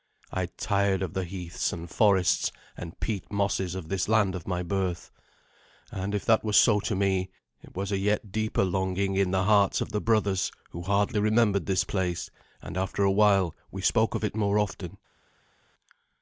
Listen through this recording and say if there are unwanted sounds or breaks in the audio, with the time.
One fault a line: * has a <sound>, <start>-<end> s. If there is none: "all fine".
all fine